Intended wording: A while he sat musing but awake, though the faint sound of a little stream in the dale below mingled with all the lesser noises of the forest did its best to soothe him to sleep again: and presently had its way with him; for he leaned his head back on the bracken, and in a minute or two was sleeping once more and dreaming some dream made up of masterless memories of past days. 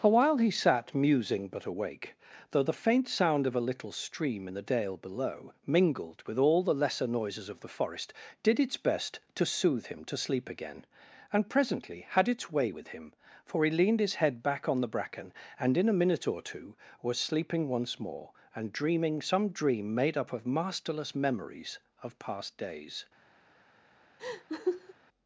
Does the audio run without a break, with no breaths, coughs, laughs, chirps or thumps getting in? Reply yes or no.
no